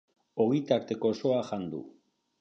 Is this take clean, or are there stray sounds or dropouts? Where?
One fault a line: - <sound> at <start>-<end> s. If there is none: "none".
none